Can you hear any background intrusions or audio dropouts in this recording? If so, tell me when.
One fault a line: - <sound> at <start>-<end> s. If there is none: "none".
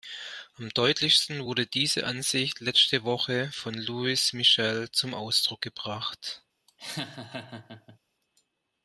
- laugh at 6.7-8.0 s